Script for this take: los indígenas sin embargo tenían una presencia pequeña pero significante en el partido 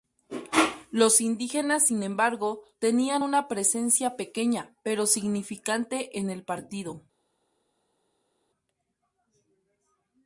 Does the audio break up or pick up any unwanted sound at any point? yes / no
no